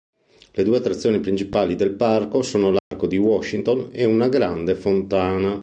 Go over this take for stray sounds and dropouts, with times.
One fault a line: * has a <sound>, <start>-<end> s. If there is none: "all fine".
* has a dropout, 2.8-2.9 s